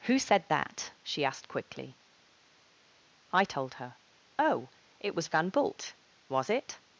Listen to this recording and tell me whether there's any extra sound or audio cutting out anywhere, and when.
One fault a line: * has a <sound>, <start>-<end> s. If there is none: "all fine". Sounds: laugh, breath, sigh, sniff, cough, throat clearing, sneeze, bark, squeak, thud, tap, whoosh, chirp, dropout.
all fine